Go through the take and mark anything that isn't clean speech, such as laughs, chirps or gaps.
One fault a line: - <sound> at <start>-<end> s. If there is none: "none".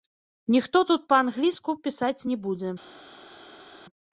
none